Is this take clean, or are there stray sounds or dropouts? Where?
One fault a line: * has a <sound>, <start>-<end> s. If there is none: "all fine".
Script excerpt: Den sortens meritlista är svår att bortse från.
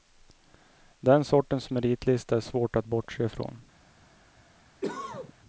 * has a cough, 4.8-5.3 s